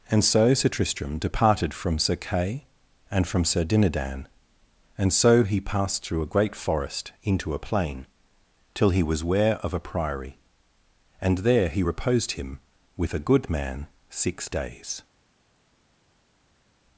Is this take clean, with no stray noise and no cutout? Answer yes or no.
yes